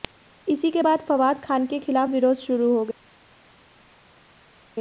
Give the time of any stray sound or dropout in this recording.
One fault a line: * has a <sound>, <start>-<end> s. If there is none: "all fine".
all fine